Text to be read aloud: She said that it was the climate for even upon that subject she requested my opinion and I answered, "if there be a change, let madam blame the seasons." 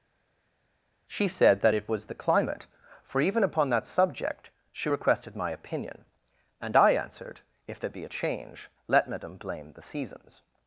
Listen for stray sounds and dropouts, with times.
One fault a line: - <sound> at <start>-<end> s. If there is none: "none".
none